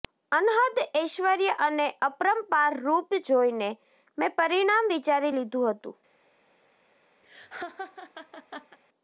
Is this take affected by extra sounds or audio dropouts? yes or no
yes